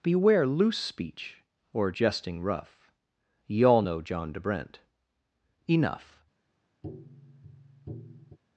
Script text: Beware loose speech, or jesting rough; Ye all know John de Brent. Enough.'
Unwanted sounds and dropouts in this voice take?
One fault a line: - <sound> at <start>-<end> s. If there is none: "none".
- tap at 6.8-8.4 s